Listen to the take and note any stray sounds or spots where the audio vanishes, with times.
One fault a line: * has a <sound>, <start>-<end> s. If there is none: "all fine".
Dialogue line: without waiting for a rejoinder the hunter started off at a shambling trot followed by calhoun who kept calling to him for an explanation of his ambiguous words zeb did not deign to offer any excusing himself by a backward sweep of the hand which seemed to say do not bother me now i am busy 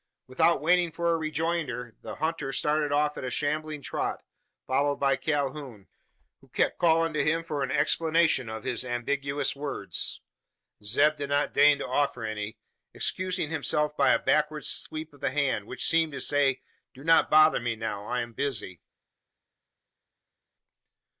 all fine